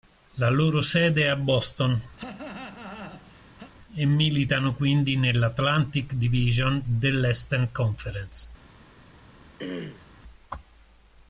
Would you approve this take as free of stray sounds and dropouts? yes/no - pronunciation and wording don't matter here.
no